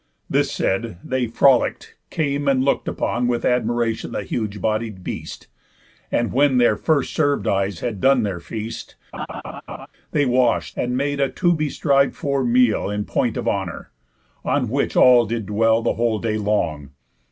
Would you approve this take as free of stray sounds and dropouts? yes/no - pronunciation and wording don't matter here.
no